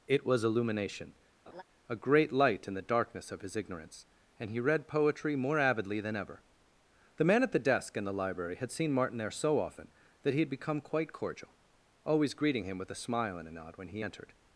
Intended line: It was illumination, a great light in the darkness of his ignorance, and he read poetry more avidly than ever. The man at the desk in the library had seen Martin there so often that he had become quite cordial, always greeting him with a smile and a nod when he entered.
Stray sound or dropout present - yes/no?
yes